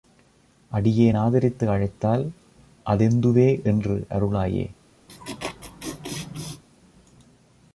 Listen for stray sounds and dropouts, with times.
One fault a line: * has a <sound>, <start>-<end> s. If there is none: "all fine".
* has a laugh, 5.1-6.6 s